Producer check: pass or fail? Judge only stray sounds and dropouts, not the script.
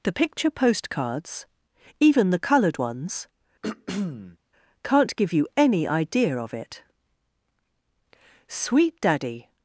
fail